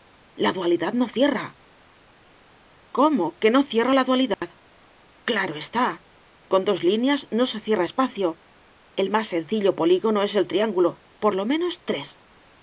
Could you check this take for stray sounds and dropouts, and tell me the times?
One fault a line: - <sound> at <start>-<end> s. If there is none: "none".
- dropout at 4.3-4.4 s